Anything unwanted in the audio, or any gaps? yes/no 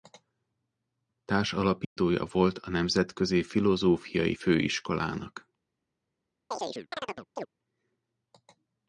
yes